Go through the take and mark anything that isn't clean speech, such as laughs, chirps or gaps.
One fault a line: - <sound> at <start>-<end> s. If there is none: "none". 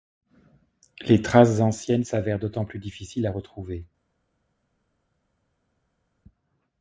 none